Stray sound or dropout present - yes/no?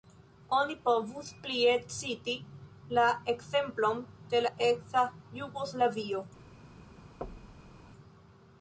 yes